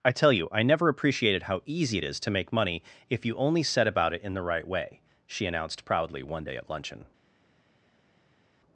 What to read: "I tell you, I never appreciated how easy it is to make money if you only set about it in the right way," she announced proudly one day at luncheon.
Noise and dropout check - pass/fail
pass